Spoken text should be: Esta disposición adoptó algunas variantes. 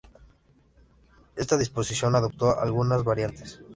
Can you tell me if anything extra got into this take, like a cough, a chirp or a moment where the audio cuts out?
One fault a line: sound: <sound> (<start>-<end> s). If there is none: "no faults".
no faults